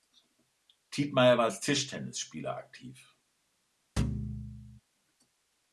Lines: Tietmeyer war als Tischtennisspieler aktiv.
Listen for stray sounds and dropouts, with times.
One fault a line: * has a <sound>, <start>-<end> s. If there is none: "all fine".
* has a thud, 4.0-4.8 s